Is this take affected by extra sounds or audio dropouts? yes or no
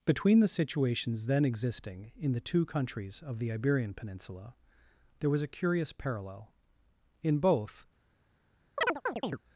yes